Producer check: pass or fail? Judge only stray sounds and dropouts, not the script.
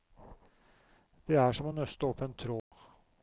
fail